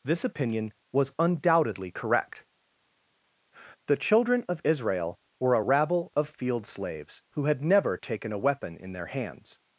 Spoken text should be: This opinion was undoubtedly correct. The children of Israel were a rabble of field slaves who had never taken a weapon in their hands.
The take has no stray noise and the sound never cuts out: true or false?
true